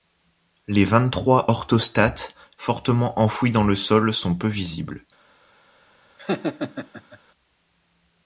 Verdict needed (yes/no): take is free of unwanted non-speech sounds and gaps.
no